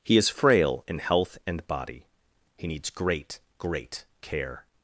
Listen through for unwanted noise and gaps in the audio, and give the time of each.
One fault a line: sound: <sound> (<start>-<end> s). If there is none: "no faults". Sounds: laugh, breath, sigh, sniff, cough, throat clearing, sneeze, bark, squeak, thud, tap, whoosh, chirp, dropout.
no faults